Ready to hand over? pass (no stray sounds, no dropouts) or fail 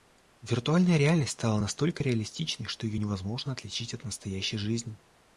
pass